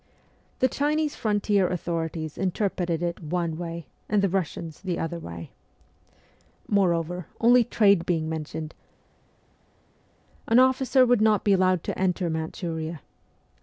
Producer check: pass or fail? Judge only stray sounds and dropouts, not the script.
pass